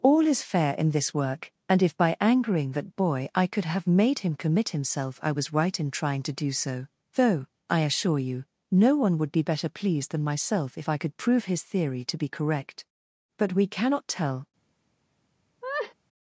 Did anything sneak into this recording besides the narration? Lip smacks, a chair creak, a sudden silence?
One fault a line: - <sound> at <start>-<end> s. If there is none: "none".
- laugh at 15.6-15.9 s